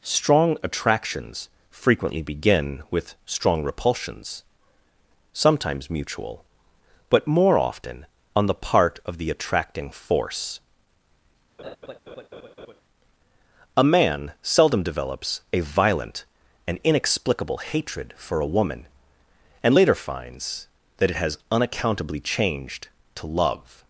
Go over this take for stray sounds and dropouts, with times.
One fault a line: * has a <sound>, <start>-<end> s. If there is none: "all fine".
* has a laugh, 11.6-12.8 s